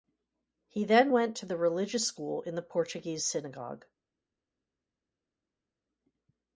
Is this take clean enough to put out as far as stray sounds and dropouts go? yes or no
yes